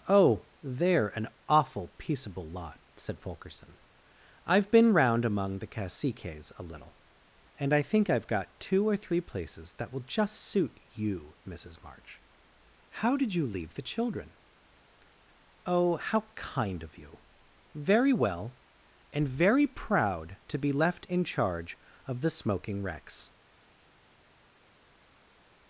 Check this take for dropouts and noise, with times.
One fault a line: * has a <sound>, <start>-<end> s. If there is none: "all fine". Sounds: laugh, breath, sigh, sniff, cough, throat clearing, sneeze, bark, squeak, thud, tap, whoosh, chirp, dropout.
all fine